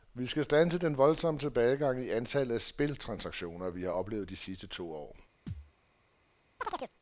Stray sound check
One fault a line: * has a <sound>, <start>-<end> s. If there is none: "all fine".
* has a thud, 5.5-5.7 s
* has a chirp, 6.6-6.9 s